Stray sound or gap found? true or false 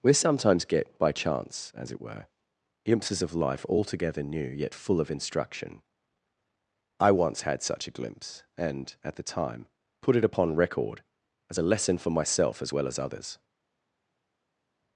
false